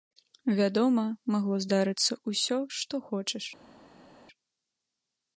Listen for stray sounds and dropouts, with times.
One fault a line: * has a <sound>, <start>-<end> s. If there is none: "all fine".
all fine